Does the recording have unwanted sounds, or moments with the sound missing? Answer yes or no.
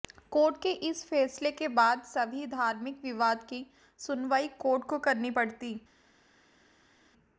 no